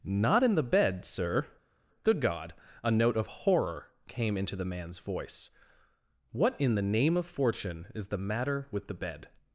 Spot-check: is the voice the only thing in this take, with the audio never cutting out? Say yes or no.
yes